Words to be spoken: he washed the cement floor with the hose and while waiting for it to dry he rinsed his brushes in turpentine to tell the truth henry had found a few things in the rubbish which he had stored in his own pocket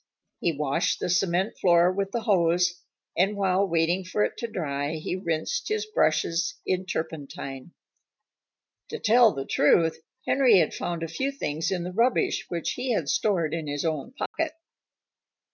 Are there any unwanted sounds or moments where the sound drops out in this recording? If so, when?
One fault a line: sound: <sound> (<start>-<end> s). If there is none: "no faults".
sound: dropout (14.3-14.3 s)